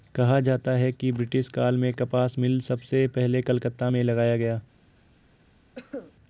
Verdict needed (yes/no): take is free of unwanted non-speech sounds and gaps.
no